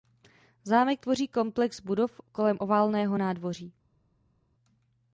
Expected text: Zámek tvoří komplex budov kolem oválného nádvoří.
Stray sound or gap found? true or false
false